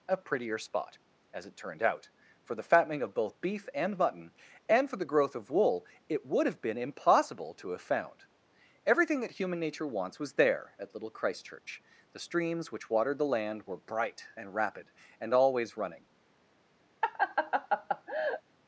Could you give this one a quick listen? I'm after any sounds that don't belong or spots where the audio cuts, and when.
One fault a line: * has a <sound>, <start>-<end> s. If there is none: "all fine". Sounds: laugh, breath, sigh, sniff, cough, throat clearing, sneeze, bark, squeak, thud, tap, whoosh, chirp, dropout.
* has a laugh, 17.0-18.4 s